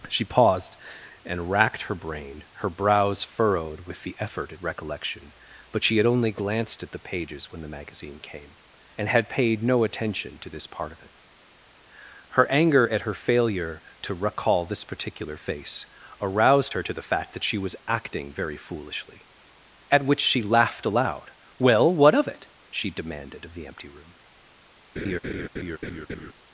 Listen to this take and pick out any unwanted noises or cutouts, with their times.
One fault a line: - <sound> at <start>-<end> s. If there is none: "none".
- laugh at 25.0-26.3 s